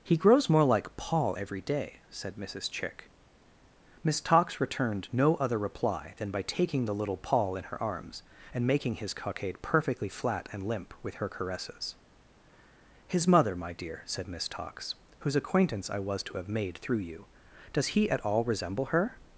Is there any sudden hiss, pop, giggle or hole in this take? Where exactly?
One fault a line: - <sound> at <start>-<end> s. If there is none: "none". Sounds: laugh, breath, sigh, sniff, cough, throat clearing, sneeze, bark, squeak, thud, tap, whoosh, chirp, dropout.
none